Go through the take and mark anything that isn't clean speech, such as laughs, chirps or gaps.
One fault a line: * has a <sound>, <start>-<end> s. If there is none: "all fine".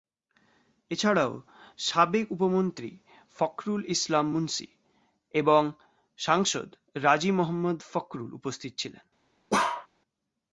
* has a bark, 9.5-9.9 s